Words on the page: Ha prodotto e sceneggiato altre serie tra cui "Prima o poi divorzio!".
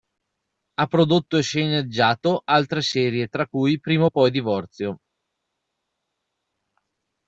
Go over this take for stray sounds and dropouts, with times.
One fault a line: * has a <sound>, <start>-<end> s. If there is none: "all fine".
all fine